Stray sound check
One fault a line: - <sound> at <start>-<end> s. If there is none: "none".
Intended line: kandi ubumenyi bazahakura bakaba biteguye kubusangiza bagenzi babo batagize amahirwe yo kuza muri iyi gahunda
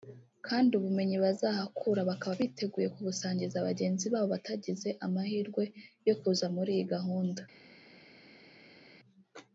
none